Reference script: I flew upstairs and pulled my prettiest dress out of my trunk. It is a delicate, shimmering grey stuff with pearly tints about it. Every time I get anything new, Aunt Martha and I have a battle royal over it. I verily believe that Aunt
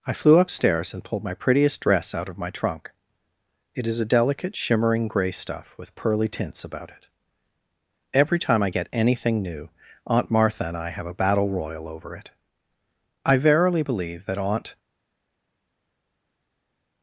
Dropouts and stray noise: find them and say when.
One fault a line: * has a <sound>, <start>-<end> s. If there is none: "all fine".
all fine